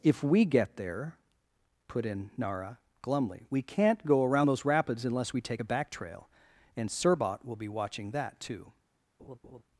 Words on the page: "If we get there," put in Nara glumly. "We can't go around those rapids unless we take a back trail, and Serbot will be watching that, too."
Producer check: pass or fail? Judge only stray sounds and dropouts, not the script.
fail